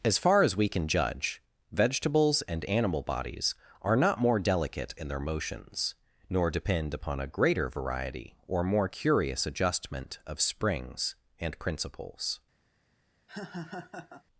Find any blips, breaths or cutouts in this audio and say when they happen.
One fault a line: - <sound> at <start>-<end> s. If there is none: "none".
- laugh at 13.3-14.2 s